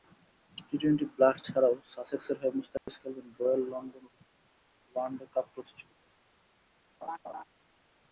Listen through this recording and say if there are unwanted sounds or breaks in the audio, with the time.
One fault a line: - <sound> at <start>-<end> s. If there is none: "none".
- dropout at 2.8-2.9 s
- laugh at 7.0-7.4 s